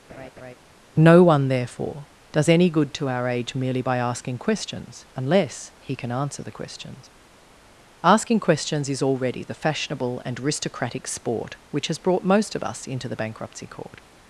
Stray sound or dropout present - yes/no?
yes